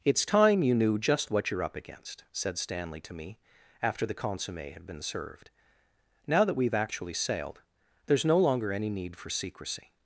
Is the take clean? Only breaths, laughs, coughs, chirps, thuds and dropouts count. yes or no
yes